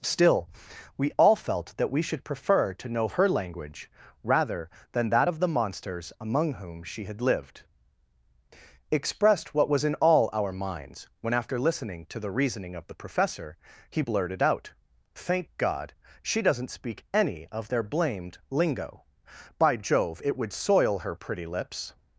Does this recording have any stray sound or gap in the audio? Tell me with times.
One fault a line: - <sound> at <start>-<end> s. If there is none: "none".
none